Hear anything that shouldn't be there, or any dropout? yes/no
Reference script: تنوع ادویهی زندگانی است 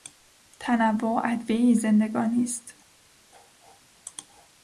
no